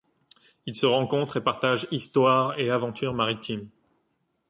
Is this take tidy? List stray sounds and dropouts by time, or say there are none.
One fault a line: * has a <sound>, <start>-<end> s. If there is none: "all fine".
all fine